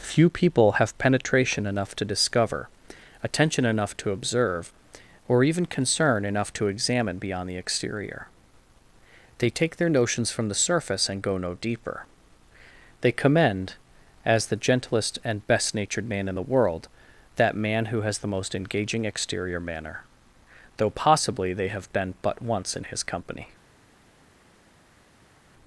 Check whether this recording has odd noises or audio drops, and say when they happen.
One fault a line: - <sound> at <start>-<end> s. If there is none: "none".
none